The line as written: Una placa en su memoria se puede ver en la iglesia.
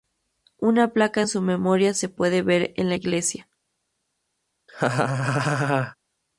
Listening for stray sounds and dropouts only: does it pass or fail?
fail